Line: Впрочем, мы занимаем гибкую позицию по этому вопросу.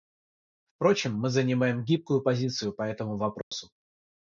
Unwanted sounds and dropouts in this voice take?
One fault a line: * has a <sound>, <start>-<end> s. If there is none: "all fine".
* has a dropout, 3.4-3.5 s